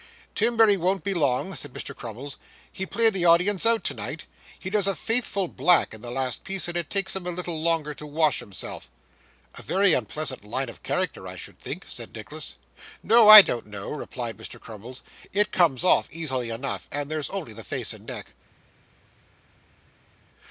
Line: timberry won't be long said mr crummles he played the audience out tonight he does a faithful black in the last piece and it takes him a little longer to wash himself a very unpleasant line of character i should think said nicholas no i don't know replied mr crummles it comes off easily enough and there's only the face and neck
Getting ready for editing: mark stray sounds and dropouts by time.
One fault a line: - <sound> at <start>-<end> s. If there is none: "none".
none